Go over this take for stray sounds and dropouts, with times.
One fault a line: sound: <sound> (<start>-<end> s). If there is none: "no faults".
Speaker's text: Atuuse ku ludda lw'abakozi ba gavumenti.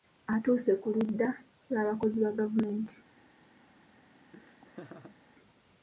sound: laugh (4.3-5.2 s)